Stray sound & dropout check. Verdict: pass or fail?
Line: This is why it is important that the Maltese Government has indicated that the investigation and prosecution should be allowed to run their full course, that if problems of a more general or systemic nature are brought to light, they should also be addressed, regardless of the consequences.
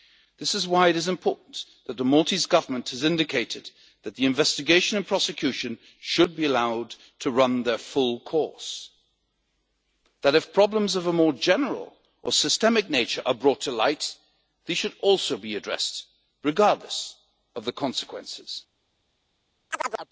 fail